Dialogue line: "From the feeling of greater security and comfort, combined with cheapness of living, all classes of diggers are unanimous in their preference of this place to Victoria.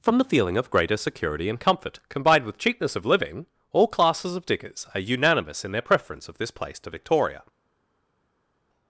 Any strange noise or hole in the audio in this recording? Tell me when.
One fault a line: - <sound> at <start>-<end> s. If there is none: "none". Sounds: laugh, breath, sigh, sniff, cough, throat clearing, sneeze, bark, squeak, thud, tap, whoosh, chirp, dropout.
none